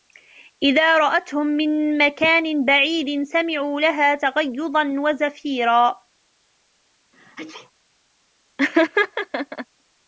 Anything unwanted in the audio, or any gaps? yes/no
yes